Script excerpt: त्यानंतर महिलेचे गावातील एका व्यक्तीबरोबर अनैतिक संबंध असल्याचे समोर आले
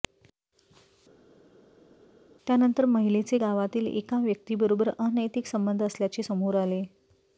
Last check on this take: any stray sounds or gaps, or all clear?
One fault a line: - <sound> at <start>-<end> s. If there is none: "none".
none